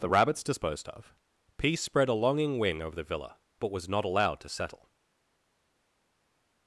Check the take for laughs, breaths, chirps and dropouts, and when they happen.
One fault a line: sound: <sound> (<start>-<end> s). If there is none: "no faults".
no faults